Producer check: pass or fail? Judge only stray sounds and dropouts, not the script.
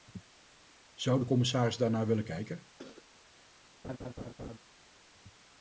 fail